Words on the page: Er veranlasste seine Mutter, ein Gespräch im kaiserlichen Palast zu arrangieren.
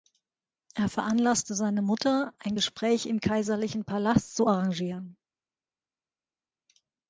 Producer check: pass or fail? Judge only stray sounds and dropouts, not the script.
pass